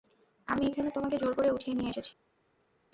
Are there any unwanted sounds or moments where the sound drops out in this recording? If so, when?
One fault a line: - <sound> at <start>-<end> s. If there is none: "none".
none